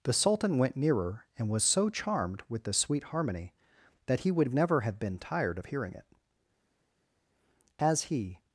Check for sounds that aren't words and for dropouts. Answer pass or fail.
pass